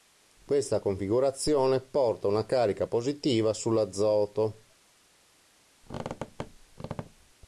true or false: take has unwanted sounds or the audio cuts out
true